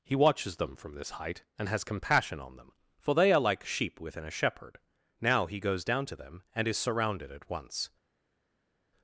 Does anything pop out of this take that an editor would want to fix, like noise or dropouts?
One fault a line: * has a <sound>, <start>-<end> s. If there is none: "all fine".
all fine